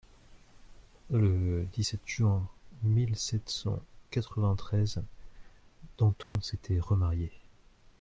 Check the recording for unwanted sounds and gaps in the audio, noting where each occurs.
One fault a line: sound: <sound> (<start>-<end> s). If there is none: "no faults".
sound: dropout (6.2-6.4 s)